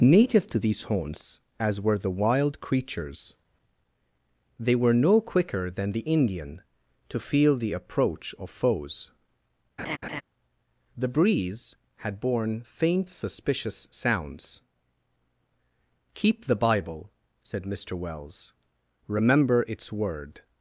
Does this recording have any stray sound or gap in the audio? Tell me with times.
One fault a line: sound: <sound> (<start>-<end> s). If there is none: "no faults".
sound: laugh (9.8-10.2 s)